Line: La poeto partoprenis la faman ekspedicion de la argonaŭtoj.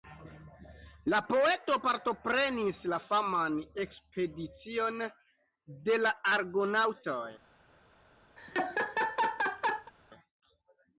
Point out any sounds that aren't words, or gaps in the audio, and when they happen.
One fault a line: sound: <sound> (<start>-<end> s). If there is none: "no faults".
sound: laugh (8.4-9.9 s)